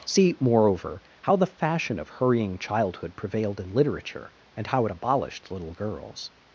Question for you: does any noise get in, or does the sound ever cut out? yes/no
no